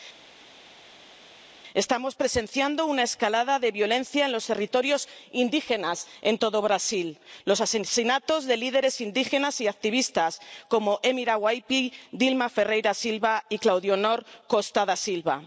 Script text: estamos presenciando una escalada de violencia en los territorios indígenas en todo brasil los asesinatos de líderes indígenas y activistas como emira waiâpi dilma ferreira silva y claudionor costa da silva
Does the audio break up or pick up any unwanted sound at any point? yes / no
no